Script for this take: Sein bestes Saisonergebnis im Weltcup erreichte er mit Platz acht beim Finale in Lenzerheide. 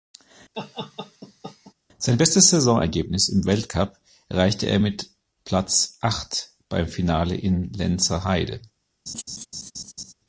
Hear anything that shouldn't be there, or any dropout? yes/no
yes